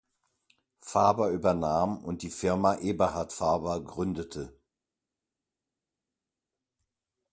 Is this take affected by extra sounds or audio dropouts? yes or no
no